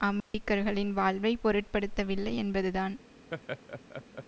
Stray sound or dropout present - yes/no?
yes